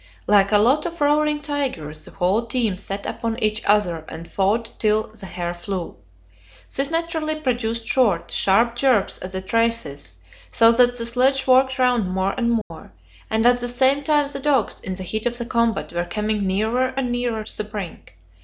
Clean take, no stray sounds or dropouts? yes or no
no